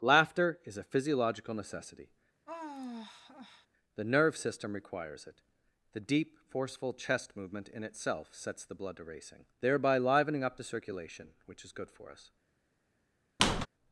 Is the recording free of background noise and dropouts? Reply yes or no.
no